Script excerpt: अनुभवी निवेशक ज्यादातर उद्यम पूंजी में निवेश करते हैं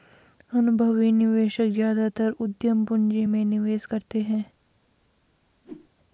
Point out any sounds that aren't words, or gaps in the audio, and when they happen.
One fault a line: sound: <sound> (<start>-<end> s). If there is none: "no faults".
sound: whoosh (5.6-5.9 s)